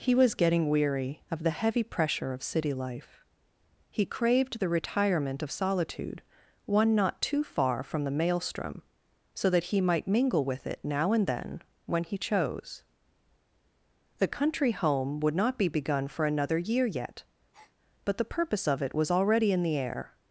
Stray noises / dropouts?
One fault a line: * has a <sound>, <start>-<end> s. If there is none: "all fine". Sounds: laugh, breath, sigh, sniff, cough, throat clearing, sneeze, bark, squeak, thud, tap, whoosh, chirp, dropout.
* has a breath, 17.5-17.8 s